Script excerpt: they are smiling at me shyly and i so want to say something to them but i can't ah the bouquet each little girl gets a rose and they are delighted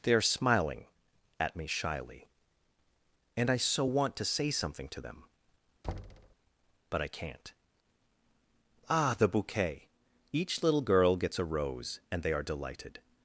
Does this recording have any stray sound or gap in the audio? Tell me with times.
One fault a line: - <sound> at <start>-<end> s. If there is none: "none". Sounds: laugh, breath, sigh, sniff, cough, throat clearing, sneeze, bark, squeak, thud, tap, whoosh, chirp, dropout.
- thud at 5.8-6.4 s